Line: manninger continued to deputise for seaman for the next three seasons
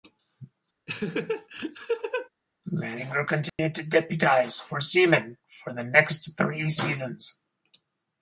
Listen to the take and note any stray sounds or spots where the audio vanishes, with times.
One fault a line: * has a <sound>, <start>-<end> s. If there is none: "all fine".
* has a laugh, 0.9-2.3 s
* has a dropout, 3.5-3.6 s